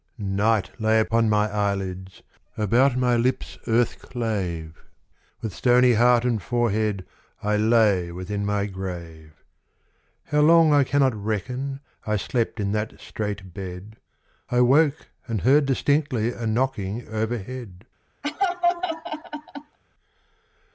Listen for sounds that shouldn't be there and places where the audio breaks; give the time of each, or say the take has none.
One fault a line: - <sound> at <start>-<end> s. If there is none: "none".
- laugh at 18.2-19.8 s